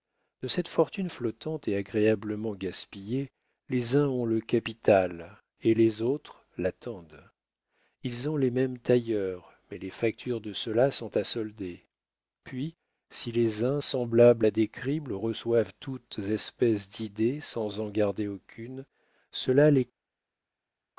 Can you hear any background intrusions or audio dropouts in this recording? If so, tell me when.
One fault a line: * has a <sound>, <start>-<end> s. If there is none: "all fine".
all fine